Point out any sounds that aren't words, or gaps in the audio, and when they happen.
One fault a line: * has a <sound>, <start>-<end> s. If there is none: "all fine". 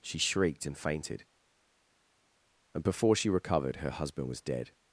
all fine